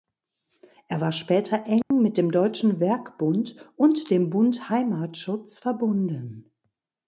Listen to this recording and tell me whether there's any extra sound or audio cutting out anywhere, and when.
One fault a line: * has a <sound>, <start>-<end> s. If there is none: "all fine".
* has a dropout, 1.8-1.9 s